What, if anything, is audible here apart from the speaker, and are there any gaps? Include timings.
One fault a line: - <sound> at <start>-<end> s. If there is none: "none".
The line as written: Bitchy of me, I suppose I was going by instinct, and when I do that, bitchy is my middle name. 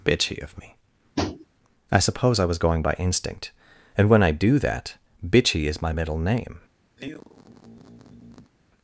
- tap at 1.2-1.5 s
- sigh at 7.0-8.5 s